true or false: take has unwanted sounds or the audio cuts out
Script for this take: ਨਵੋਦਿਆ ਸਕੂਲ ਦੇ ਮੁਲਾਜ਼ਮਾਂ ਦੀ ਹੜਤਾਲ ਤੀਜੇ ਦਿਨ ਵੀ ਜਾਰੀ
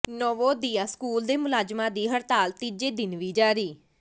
false